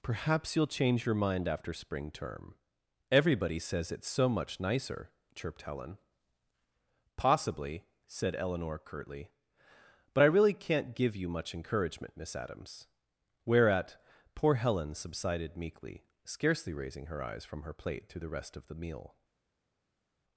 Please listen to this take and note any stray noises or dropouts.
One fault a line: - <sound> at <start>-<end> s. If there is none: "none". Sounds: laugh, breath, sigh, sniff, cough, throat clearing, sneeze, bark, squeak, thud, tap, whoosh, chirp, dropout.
none